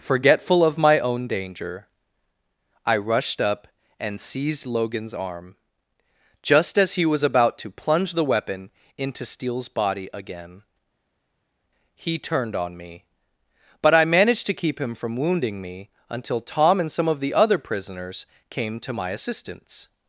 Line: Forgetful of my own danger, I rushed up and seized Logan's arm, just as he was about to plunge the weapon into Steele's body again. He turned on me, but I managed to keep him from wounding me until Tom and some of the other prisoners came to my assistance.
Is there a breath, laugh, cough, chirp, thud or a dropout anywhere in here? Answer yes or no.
no